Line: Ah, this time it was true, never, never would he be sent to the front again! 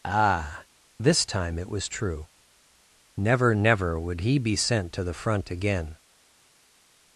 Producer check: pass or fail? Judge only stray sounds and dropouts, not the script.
pass